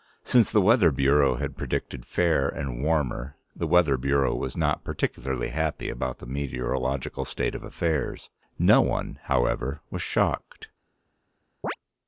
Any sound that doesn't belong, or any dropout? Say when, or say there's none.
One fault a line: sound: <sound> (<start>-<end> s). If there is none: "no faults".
sound: chirp (11.6-11.8 s)